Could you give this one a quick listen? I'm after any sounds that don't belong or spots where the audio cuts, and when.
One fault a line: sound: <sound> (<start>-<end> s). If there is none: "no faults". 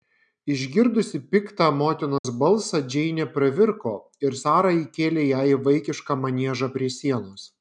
sound: dropout (2.2-2.2 s)